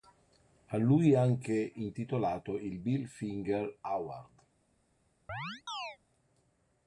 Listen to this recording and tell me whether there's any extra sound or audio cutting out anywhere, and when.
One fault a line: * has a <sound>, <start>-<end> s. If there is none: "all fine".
* has a chirp, 5.3-6.0 s